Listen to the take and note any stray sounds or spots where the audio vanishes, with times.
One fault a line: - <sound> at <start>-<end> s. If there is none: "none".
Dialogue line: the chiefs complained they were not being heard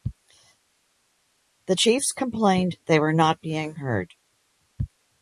none